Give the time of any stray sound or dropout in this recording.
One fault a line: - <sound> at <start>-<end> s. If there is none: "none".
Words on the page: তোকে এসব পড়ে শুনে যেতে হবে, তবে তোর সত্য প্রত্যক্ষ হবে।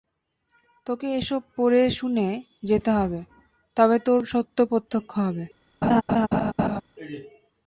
- laugh at 5.8-6.8 s